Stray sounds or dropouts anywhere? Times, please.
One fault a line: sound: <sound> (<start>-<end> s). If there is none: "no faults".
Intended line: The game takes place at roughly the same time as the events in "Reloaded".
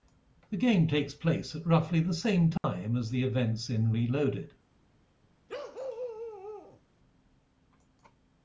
sound: dropout (2.6-2.6 s)
sound: bark (5.5-6.8 s)